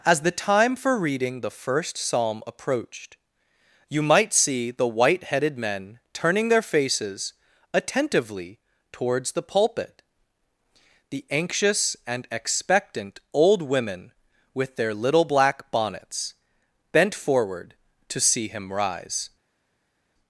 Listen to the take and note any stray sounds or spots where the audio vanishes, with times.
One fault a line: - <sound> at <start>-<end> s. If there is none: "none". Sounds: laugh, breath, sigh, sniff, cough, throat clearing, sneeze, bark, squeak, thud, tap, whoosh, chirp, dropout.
none